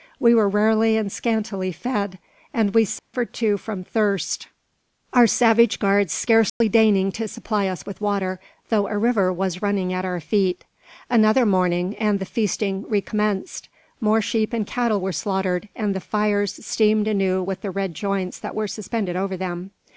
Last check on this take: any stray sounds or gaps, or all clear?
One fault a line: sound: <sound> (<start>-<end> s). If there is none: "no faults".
sound: dropout (3.0-3.1 s)
sound: dropout (6.5-6.6 s)